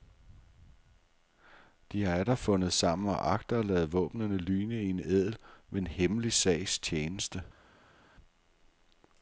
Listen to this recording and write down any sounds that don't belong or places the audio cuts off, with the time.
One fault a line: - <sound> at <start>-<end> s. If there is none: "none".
none